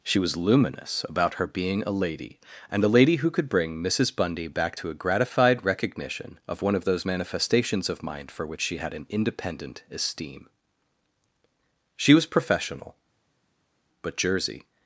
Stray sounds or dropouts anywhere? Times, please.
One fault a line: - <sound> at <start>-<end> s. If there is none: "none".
none